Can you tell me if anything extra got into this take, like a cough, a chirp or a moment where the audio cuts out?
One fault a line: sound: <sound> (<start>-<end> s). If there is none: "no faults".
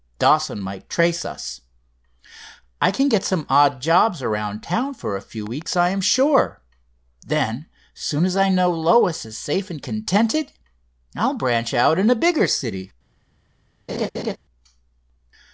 sound: laugh (13.9-14.4 s)